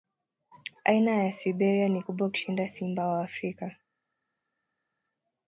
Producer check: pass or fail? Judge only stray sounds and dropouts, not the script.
pass